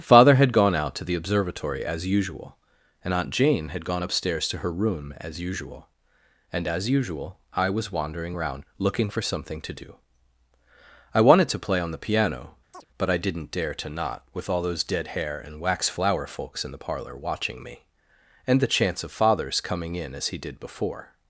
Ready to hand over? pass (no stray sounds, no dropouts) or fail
fail